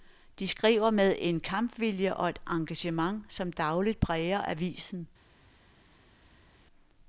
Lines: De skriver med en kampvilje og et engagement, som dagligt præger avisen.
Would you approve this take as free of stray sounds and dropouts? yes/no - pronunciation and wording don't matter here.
yes